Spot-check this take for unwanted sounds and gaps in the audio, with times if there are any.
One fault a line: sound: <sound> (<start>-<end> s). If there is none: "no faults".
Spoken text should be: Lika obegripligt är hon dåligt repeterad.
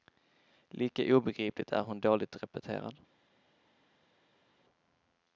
no faults